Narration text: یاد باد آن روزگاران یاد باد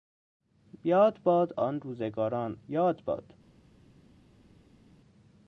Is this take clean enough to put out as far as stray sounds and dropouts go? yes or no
yes